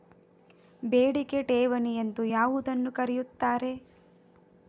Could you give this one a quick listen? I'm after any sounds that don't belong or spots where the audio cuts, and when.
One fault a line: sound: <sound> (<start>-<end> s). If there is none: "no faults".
no faults